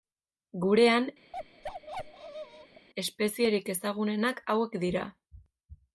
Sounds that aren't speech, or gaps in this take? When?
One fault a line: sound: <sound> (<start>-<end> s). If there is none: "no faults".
sound: bark (1.3-2.9 s)